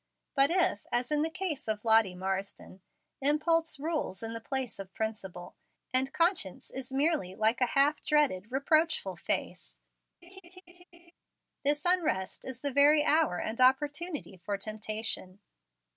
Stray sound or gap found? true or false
true